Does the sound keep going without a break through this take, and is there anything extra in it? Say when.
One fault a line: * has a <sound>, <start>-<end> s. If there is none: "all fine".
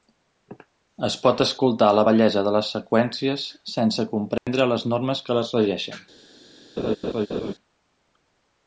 * has a dropout, 4.4-4.5 s
* has a laugh, 6.8-7.5 s